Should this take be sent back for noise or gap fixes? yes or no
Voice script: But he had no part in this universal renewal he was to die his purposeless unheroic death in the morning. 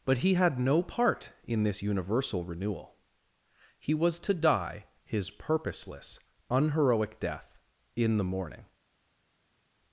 no